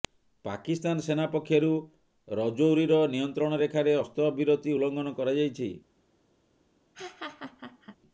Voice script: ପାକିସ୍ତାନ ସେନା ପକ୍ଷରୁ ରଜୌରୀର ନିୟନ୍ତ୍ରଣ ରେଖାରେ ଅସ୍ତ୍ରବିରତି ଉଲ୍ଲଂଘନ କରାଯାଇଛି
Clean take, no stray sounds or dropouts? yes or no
no